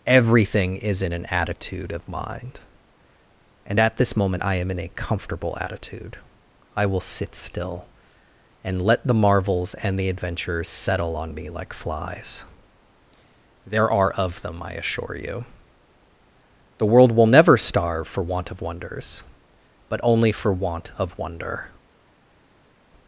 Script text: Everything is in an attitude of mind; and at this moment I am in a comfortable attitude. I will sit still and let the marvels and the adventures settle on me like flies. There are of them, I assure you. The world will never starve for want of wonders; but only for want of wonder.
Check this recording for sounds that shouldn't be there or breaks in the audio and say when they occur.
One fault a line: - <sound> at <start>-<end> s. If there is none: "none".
none